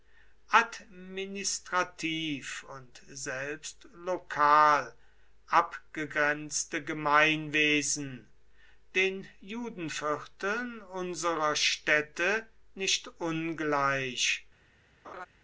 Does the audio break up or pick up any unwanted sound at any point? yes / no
yes